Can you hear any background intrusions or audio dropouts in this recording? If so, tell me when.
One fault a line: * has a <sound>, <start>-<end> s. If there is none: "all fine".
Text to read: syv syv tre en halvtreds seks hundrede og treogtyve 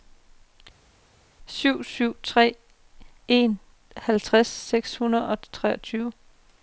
all fine